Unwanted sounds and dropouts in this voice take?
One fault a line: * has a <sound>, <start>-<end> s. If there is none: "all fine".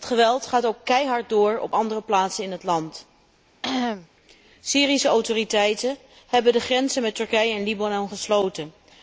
* has a cough, 3.6-4.1 s